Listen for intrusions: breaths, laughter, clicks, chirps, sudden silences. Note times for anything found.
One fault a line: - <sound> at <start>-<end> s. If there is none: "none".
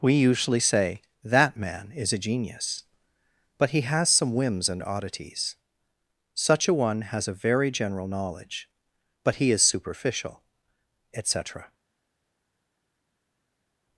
none